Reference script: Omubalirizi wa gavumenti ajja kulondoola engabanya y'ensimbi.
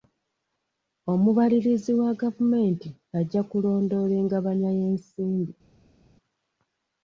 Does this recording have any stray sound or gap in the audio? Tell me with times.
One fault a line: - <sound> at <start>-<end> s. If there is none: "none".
none